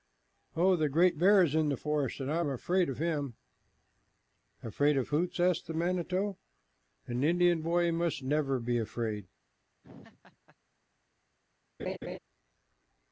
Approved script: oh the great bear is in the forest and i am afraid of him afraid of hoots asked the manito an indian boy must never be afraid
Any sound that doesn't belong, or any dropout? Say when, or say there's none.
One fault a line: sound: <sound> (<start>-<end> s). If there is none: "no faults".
sound: laugh (9.8-10.6 s)
sound: laugh (11.8-12.2 s)